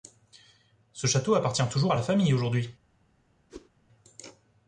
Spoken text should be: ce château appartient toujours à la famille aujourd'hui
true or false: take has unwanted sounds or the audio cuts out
true